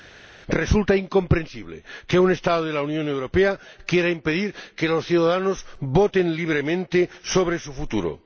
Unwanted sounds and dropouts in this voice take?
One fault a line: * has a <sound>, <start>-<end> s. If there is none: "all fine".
all fine